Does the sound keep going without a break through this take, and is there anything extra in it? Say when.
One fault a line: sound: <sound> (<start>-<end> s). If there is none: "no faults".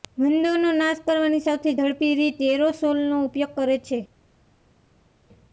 no faults